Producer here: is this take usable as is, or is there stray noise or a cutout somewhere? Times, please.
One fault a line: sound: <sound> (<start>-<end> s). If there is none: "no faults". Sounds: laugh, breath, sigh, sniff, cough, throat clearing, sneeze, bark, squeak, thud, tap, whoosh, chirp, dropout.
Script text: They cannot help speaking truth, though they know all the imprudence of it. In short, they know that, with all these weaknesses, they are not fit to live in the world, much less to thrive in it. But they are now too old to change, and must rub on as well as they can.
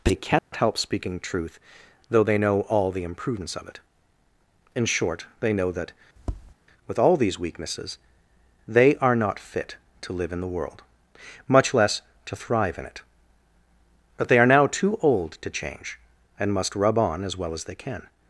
sound: dropout (0.4-0.5 s)
sound: tap (6.2-6.5 s)